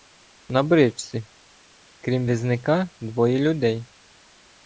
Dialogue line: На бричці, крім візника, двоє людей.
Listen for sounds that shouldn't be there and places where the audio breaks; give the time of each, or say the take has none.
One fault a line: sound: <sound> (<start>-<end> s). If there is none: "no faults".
no faults